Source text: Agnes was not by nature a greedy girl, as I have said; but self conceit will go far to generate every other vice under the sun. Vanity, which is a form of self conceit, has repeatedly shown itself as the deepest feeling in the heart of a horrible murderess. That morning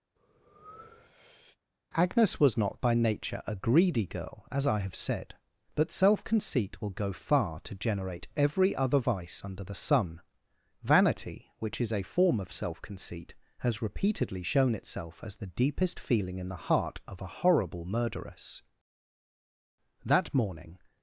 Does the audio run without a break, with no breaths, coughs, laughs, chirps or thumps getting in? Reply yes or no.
no